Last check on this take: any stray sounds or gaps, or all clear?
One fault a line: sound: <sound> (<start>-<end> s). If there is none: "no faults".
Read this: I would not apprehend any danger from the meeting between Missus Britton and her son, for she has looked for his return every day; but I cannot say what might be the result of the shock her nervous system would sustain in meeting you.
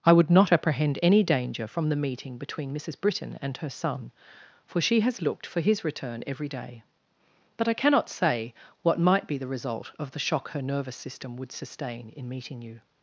no faults